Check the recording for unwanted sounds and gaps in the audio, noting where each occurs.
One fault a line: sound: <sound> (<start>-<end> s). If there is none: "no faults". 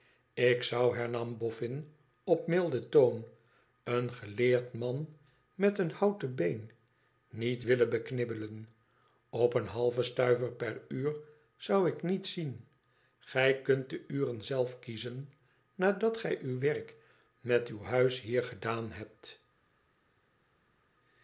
no faults